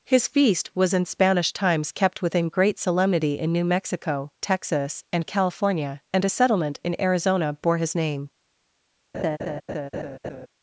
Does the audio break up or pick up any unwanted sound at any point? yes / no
yes